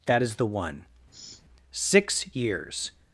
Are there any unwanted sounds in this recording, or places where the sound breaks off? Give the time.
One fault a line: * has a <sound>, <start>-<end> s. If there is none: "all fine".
* has a sniff, 1.1-1.4 s